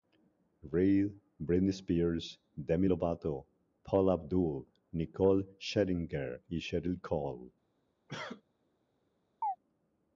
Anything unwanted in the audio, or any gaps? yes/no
yes